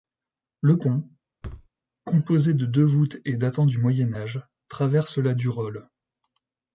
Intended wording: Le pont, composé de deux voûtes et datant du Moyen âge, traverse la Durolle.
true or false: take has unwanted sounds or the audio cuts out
true